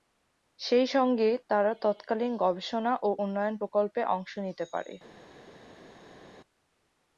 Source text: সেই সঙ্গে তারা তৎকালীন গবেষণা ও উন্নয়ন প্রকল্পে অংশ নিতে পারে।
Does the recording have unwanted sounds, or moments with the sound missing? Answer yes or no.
no